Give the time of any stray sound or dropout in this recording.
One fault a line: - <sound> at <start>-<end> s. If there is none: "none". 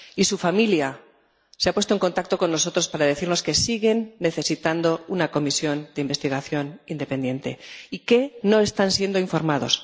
none